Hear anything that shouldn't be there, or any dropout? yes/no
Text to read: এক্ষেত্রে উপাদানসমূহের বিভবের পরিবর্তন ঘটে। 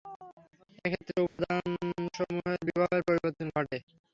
yes